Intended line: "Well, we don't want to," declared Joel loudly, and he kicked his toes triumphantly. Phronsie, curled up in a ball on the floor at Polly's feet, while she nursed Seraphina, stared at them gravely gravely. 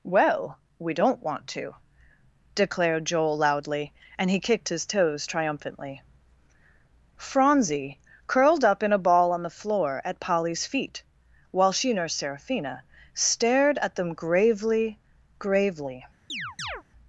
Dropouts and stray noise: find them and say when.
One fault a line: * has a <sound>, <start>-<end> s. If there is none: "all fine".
* has a chirp, 16.3-16.8 s